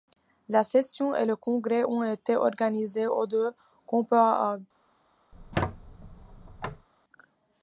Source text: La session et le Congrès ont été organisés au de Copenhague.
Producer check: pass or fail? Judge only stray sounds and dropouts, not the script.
fail